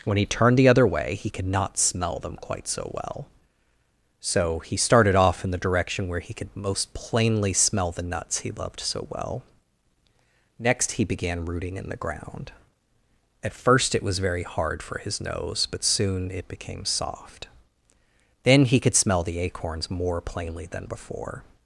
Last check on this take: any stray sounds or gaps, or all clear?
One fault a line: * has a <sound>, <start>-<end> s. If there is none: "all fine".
all fine